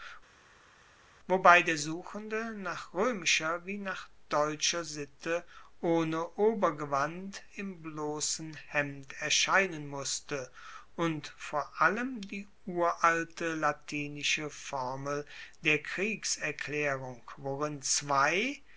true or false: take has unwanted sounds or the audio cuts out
false